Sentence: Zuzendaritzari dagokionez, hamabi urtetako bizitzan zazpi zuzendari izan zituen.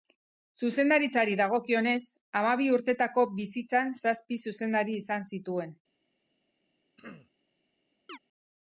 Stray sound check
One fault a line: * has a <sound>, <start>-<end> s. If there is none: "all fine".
* has a throat clearing, 7.0-7.3 s
* has a chirp, 8.1-8.2 s